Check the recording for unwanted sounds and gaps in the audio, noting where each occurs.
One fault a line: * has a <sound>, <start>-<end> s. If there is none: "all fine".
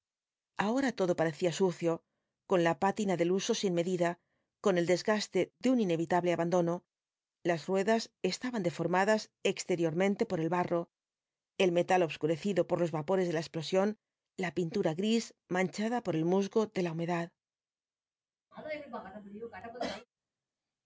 * has a cough, 18.5-20.1 s